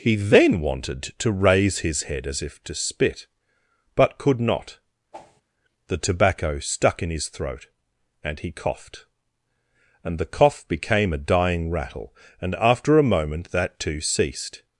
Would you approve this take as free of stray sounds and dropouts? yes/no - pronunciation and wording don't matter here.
no